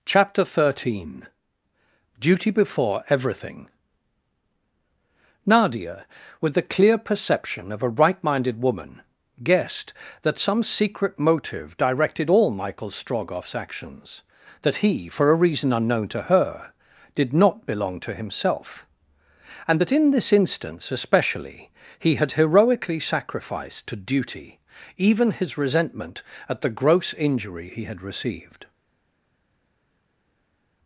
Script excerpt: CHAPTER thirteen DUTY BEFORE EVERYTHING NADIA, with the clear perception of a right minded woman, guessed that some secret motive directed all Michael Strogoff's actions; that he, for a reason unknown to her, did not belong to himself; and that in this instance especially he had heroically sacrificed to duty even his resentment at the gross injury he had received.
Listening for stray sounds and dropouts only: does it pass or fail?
pass